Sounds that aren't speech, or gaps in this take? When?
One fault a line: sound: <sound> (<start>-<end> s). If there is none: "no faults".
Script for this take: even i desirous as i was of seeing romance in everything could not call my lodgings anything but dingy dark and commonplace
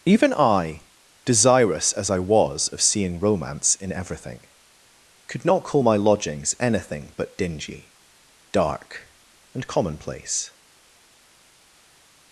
no faults